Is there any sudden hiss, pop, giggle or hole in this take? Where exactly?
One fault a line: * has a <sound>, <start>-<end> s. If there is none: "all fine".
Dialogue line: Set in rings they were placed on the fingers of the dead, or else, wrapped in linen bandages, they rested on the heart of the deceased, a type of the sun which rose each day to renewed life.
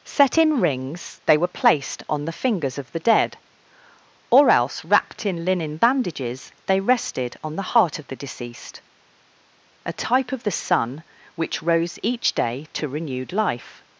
all fine